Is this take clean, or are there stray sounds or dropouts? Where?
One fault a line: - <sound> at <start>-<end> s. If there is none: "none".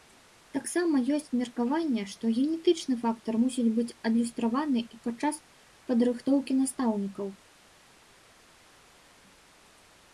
none